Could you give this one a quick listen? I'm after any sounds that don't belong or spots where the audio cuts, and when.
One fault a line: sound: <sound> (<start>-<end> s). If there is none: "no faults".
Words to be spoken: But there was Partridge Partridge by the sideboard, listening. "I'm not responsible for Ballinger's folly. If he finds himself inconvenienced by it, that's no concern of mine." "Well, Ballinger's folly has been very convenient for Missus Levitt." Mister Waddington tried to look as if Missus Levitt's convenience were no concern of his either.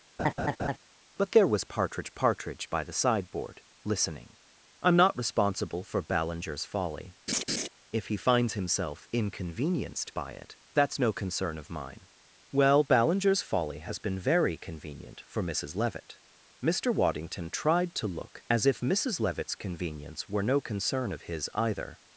sound: laugh (0.2-0.8 s)
sound: laugh (7.3-7.7 s)